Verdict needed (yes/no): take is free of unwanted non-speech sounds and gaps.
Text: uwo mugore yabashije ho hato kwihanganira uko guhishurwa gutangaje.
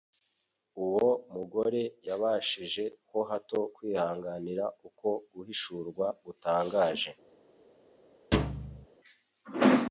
no